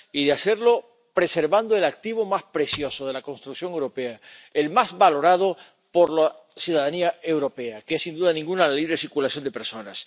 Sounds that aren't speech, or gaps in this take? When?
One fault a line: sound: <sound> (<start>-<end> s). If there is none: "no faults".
no faults